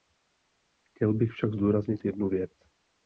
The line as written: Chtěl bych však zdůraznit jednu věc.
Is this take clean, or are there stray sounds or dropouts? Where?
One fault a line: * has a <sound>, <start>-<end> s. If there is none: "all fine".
all fine